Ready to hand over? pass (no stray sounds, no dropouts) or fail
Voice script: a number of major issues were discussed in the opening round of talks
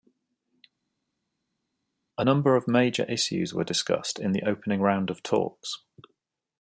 pass